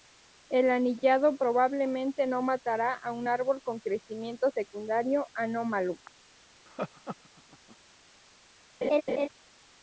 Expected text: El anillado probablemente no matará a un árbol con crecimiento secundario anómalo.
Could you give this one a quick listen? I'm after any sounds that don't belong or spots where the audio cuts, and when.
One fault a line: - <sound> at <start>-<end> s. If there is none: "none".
- laugh at 6.7-7.8 s
- laugh at 8.8-9.3 s